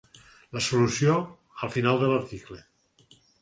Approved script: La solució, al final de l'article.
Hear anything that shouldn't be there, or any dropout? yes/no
no